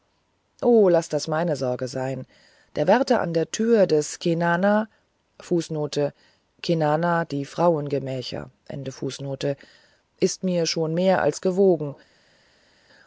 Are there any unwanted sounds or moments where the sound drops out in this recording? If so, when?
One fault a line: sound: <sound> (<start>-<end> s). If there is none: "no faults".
no faults